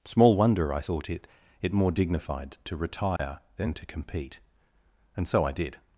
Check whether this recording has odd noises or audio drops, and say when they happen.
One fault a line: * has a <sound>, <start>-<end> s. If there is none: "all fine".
* has a dropout, 3.2-3.2 s